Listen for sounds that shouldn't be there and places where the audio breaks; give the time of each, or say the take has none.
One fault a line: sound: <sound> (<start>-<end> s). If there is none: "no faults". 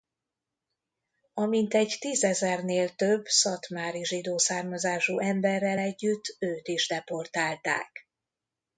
no faults